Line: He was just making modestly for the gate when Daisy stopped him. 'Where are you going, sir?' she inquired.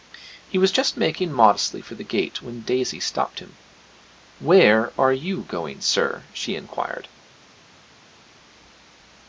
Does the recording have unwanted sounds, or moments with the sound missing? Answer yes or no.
no